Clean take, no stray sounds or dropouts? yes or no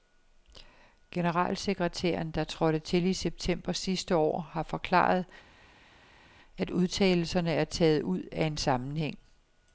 yes